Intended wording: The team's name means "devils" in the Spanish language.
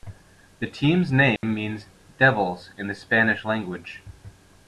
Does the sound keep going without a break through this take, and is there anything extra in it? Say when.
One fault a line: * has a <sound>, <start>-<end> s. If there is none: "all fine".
* has a dropout, 1.4-1.4 s